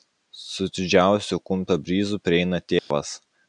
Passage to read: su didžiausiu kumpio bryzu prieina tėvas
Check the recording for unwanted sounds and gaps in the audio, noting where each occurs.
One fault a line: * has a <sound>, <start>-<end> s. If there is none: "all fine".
* has a dropout, 2.8-2.9 s